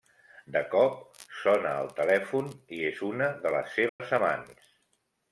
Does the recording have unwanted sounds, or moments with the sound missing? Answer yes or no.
yes